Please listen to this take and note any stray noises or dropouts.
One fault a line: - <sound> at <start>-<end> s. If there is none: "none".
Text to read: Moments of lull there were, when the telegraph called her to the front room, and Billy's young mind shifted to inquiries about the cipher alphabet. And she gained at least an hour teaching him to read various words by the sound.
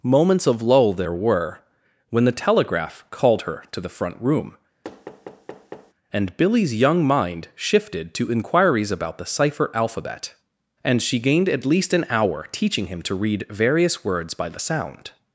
- thud at 4.8-5.9 s